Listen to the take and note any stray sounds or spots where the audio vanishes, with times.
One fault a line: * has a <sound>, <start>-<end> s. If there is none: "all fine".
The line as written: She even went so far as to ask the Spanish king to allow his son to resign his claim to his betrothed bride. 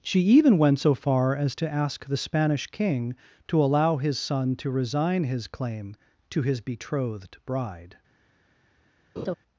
* has a laugh, 9.2-9.3 s